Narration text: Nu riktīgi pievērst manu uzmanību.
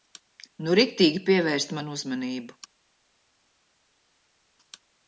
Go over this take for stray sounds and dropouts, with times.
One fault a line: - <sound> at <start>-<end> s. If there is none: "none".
none